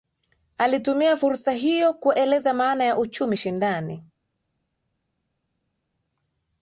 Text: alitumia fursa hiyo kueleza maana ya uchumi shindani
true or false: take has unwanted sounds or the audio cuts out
false